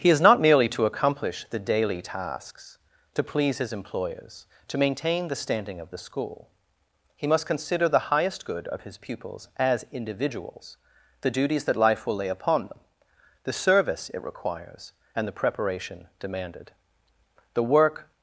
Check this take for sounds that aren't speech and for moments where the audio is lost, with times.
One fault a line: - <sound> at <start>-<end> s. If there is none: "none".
none